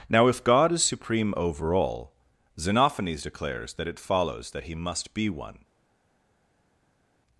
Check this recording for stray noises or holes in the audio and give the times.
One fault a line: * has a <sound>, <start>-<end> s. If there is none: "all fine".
all fine